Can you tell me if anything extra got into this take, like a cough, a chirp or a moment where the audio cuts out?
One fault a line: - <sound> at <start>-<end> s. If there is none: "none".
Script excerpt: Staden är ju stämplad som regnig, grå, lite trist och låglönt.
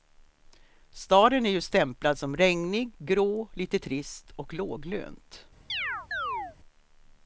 - chirp at 5.7-6.6 s